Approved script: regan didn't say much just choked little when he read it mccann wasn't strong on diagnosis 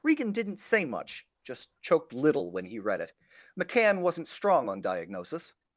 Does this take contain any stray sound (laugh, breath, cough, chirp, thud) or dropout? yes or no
no